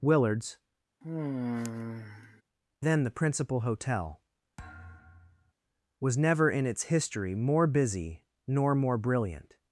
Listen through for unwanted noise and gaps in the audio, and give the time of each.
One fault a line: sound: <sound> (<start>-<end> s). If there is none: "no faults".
sound: sigh (1.0-2.4 s)
sound: thud (4.6-5.5 s)